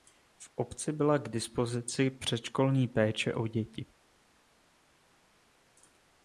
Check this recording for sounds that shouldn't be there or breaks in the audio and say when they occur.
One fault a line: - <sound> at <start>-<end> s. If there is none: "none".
none